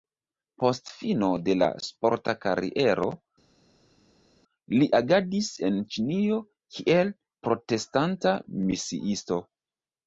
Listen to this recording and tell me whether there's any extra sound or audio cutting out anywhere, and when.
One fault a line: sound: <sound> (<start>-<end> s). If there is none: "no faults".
no faults